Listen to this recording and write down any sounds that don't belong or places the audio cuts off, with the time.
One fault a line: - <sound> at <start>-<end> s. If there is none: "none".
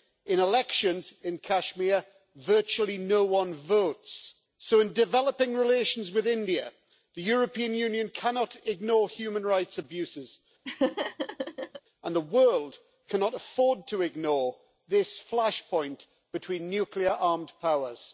- laugh at 10.6-11.8 s